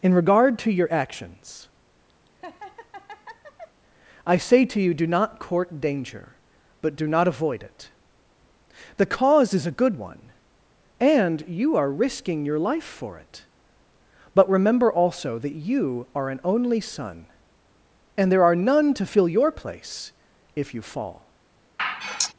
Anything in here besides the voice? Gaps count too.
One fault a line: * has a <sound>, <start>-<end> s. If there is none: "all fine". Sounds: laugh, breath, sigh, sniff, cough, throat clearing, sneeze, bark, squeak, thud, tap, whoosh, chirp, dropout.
* has a laugh, 2.3-3.8 s
* has a sigh, 21.8-22.3 s